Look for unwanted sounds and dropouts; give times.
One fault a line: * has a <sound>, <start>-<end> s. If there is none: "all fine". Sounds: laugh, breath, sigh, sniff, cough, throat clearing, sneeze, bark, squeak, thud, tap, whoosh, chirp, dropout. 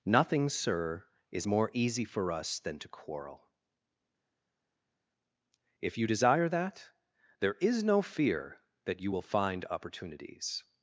all fine